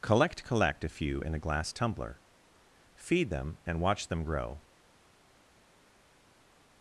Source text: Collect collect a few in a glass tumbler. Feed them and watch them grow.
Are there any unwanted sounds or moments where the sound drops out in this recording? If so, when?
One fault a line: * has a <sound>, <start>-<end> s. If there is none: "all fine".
all fine